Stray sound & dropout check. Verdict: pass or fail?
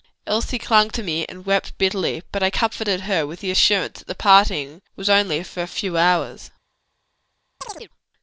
fail